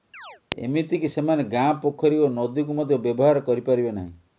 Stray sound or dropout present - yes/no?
yes